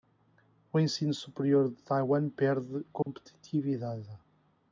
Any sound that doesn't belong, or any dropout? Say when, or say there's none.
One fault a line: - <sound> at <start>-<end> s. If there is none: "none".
- dropout at 3.0-3.1 s